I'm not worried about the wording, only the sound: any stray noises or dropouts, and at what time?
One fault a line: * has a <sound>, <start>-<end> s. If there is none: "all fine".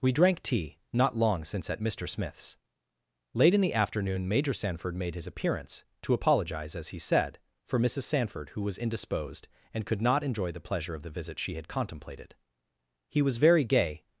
all fine